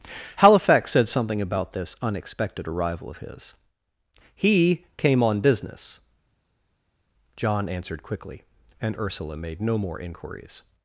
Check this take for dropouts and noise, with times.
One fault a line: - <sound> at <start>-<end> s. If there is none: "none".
none